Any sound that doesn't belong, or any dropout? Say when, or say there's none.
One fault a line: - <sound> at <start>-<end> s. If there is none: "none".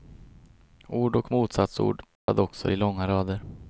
- dropout at 2.2-2.3 s